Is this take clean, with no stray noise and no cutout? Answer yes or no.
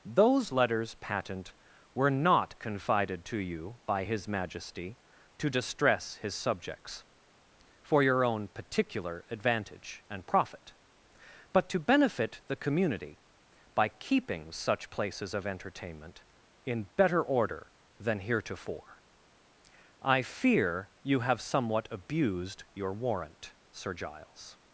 yes